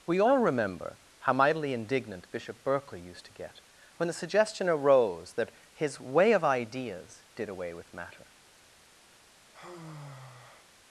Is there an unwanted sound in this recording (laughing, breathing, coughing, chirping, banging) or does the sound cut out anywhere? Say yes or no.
yes